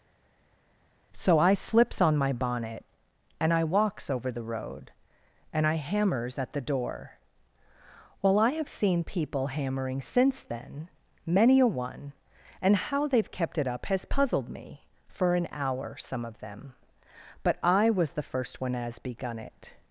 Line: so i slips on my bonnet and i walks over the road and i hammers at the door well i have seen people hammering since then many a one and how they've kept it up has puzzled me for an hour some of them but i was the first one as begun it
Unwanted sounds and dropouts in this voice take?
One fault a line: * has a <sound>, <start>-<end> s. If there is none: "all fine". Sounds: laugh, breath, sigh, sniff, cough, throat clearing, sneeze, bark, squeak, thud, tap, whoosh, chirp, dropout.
all fine